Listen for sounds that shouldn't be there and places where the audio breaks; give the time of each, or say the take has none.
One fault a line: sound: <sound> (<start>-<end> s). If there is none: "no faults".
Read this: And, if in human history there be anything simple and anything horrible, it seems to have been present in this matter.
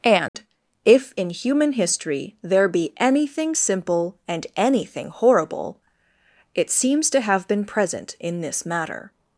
sound: dropout (0.3-0.3 s)